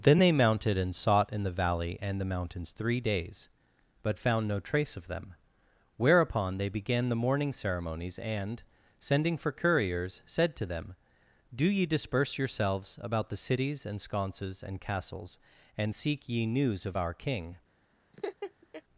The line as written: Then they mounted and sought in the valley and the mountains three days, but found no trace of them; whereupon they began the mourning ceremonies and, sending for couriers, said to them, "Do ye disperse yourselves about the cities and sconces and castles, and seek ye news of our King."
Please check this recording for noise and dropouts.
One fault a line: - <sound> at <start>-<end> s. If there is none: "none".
- laugh at 18.1-18.8 s